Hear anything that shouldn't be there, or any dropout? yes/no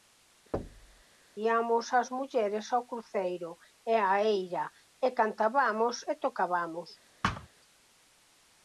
yes